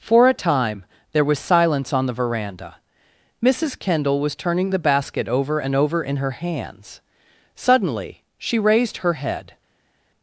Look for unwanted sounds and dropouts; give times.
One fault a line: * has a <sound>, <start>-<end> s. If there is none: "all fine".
all fine